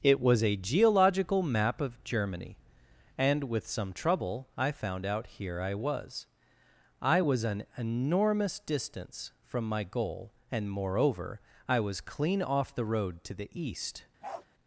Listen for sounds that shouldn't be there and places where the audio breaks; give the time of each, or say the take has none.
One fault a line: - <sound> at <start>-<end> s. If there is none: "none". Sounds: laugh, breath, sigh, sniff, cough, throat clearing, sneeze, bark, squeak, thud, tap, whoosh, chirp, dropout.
- bark at 14.2-14.5 s